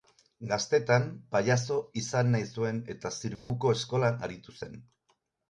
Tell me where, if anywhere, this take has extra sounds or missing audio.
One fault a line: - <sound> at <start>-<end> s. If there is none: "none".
- dropout at 3.3-3.5 s